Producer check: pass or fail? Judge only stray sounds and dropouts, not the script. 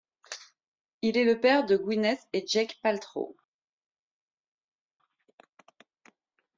pass